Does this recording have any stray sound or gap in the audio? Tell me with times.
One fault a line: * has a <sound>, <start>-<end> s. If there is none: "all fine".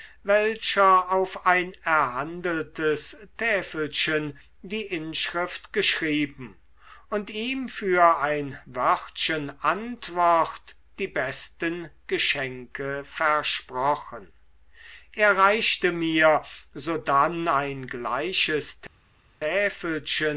all fine